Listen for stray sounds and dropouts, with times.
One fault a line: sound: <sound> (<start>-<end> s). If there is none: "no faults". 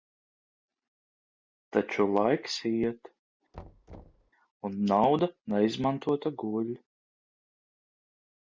sound: thud (3.5-4.3 s)